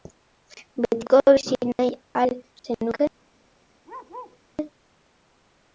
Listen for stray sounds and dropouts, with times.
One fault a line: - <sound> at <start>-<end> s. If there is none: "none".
- bark at 3.8-4.4 s